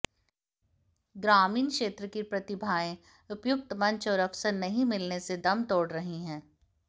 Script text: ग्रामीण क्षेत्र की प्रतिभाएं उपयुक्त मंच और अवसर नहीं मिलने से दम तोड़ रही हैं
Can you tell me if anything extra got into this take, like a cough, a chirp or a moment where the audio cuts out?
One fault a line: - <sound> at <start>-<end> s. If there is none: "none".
none